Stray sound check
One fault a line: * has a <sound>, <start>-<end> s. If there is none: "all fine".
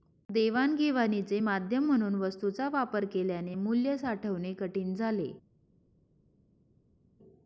all fine